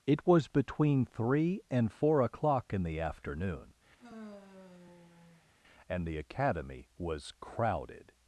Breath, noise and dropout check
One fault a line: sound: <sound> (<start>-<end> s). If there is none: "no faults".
sound: sigh (4.0-5.5 s)